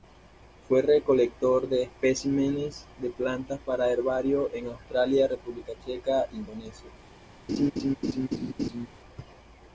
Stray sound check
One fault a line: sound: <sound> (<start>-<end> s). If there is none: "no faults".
sound: laugh (7.5-8.9 s)